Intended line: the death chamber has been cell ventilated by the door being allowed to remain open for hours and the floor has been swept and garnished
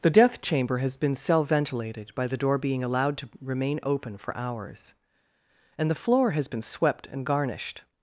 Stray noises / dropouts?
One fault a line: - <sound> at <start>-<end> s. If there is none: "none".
none